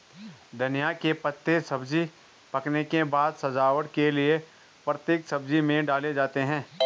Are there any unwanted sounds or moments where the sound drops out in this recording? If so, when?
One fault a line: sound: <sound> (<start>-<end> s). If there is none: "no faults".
no faults